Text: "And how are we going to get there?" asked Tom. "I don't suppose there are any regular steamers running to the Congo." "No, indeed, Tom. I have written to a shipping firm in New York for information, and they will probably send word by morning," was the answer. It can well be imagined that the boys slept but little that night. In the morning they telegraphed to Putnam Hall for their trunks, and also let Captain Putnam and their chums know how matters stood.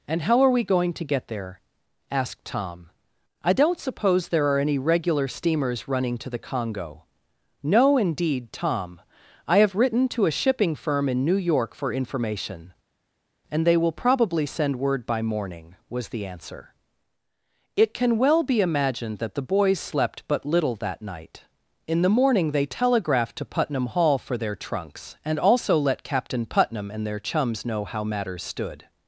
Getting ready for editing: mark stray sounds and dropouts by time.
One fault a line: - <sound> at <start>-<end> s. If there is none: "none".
none